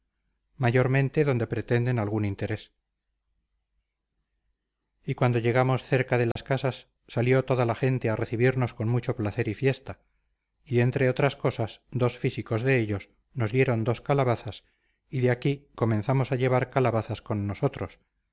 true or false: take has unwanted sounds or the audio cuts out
true